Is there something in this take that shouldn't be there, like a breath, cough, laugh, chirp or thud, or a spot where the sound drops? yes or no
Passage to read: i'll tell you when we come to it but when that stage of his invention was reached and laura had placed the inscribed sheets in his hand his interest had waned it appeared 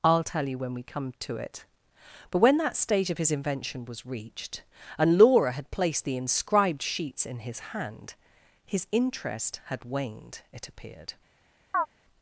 yes